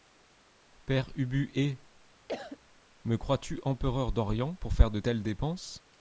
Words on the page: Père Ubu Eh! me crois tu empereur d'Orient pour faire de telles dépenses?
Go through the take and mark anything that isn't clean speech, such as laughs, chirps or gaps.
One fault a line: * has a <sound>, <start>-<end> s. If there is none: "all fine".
* has a cough, 2.3-2.6 s